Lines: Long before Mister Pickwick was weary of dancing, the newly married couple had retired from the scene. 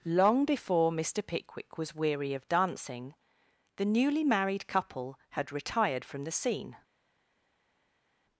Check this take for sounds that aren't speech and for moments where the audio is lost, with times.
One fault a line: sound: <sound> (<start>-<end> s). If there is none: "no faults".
no faults